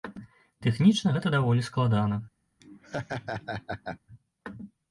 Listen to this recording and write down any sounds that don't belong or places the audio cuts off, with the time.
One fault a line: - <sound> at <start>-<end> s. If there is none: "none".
- laugh at 2.6-4.0 s